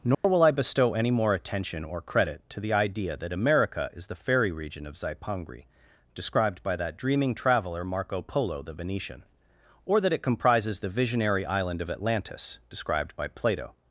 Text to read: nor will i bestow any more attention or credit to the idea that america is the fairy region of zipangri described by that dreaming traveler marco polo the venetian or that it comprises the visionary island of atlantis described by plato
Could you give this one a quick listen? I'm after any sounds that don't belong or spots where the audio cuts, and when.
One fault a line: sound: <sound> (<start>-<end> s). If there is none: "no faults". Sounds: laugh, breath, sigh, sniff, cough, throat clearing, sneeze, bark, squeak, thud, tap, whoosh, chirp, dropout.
sound: dropout (0.1-0.2 s)